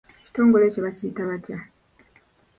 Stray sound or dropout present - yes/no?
no